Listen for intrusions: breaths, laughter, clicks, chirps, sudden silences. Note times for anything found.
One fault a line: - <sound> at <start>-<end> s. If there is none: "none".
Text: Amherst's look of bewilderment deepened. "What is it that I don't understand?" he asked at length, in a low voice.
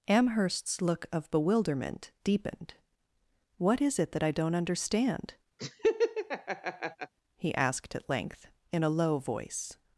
- laugh at 5.6-7.1 s